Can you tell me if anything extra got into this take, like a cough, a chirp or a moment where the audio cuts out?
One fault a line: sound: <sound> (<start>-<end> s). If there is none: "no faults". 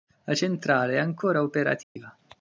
sound: dropout (1.8-2.0 s)